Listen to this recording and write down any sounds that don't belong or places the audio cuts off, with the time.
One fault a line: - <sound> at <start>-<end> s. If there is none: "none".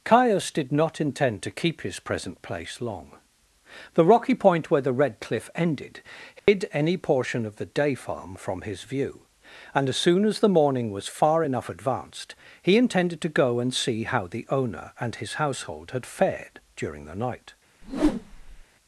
- dropout at 6.4-6.5 s
- whoosh at 17.8-18.6 s